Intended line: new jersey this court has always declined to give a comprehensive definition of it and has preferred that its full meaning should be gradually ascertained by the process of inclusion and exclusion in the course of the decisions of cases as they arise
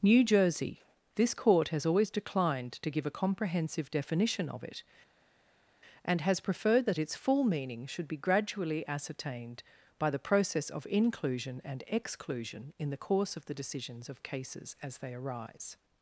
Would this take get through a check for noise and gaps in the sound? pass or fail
pass